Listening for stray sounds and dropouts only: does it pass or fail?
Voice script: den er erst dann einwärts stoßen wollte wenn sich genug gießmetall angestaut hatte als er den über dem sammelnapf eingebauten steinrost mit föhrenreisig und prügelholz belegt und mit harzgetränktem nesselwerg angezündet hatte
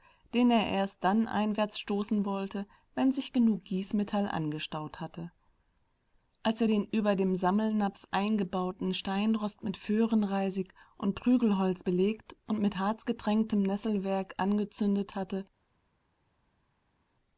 pass